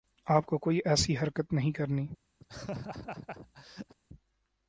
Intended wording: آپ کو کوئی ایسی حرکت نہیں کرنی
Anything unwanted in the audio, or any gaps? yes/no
yes